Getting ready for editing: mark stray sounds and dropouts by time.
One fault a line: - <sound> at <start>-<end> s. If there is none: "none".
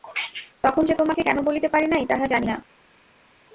none